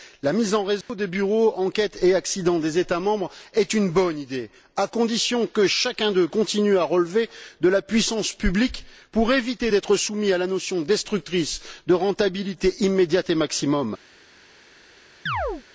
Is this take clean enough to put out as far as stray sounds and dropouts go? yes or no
no